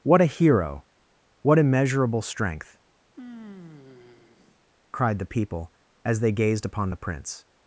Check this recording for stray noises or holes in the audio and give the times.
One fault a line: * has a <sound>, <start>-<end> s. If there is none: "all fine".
* has a sigh, 3.1-4.6 s